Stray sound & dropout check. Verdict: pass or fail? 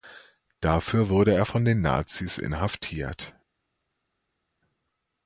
pass